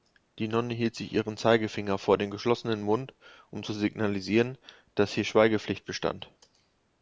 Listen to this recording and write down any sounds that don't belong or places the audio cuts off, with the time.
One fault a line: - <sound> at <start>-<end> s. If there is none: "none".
none